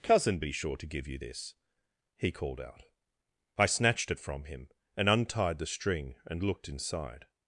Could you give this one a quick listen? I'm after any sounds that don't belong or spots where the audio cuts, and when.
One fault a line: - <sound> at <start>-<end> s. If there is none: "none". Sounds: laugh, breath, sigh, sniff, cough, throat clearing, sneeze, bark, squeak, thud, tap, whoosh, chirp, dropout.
none